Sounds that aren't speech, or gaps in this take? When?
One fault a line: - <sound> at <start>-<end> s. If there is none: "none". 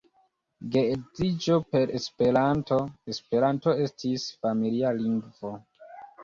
none